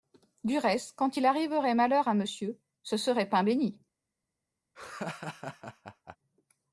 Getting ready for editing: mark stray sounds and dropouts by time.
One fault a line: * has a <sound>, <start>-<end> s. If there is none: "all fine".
* has a laugh, 4.7-6.2 s